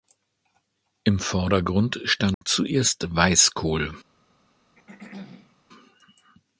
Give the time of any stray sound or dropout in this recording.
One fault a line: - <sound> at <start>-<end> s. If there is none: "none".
- dropout at 2.3-2.4 s
- throat clearing at 4.8-5.6 s